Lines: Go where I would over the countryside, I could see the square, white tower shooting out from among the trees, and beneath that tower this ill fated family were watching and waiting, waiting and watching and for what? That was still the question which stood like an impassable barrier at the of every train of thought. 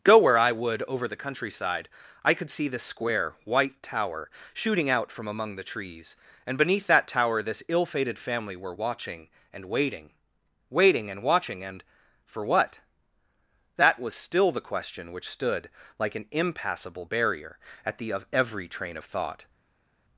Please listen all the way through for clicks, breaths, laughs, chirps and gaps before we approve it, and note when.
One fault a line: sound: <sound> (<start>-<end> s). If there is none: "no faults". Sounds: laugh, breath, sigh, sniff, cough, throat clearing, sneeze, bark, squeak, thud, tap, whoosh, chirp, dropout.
no faults